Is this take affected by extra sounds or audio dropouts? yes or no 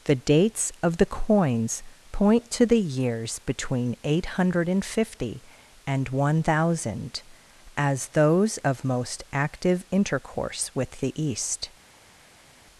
no